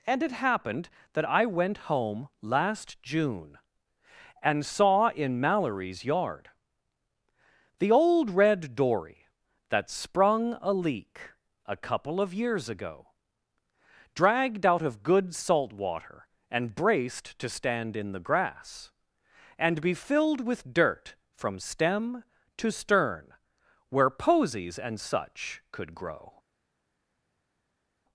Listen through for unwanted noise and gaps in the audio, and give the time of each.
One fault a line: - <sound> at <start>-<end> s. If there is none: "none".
none